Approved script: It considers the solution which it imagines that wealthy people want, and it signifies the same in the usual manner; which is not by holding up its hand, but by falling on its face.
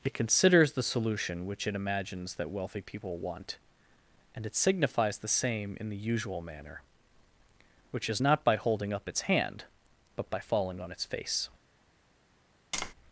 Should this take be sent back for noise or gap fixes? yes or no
yes